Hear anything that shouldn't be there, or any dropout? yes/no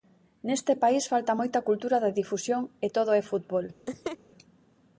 yes